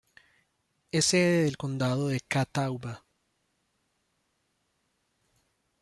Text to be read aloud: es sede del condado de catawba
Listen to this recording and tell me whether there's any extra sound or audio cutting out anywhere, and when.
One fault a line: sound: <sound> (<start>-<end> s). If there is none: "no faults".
no faults